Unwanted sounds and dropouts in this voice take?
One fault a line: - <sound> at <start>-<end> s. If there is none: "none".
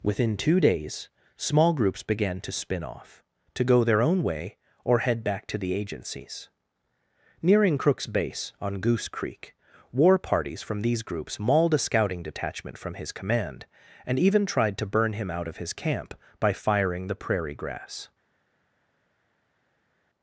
none